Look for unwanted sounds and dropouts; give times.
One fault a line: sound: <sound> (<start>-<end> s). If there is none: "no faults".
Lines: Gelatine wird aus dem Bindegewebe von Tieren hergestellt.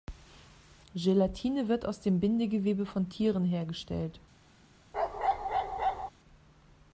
sound: bark (4.9-6.1 s)